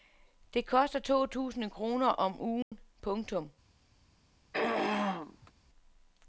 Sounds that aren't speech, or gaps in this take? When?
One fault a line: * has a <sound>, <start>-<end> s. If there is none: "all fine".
* has a dropout, 2.6-2.7 s
* has a throat clearing, 4.5-5.5 s